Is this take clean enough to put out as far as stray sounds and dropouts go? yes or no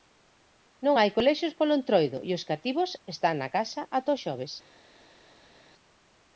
yes